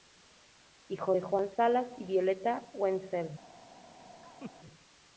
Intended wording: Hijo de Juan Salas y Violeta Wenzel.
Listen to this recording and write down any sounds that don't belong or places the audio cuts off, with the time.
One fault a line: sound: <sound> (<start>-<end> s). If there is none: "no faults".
sound: laugh (4.2-4.5 s)